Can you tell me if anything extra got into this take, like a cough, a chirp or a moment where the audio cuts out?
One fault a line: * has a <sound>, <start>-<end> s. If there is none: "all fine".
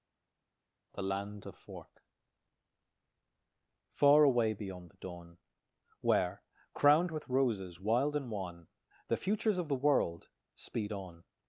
all fine